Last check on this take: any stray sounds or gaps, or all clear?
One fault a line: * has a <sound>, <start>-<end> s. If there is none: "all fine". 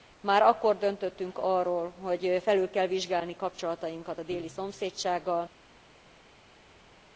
all fine